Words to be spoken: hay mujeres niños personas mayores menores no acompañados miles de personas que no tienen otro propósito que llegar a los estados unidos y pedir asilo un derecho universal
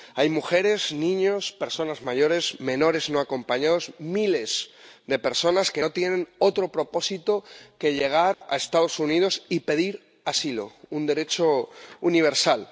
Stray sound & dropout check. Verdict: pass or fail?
fail